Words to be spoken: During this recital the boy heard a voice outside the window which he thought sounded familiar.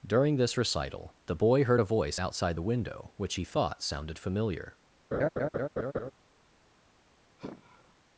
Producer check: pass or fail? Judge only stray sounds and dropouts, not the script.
fail